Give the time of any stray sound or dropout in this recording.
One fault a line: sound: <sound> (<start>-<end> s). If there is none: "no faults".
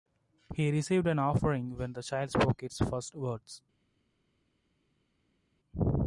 no faults